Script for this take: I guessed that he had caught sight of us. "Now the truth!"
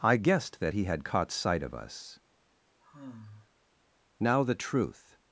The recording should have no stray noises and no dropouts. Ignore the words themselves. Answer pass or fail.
fail